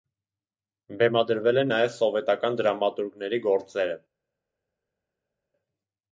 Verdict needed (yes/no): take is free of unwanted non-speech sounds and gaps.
yes